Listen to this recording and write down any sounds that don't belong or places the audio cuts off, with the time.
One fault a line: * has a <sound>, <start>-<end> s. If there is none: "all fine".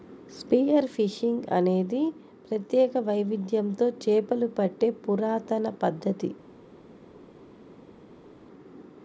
all fine